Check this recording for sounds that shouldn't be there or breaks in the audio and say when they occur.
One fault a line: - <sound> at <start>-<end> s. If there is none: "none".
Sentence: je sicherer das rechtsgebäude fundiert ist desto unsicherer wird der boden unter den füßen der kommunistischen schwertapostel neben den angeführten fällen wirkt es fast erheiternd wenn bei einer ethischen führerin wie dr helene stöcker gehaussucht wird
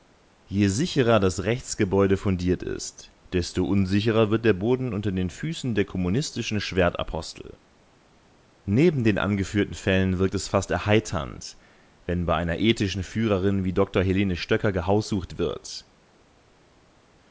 none